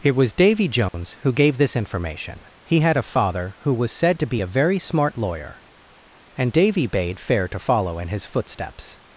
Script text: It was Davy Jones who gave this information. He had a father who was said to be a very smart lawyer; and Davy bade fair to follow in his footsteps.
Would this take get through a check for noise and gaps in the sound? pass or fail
fail